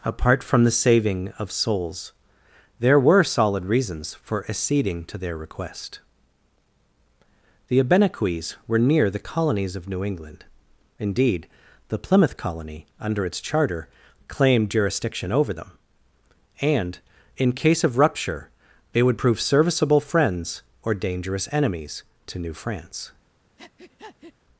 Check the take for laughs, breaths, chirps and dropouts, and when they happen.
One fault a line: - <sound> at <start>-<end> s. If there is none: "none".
- breath at 23.6-24.3 s